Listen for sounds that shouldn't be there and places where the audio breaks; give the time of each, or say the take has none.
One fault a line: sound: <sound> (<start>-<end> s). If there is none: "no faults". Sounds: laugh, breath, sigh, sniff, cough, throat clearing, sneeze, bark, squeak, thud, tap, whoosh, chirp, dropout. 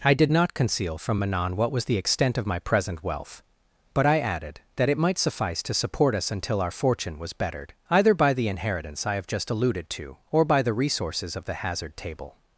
no faults